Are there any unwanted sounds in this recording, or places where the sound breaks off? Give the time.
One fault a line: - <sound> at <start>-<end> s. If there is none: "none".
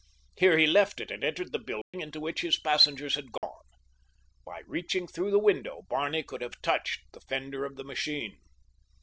- dropout at 1.8-1.9 s
- dropout at 3.4-3.4 s